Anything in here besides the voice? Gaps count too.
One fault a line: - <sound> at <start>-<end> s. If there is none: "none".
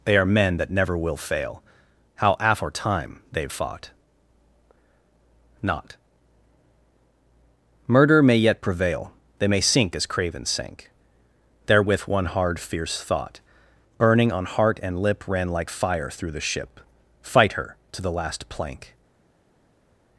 none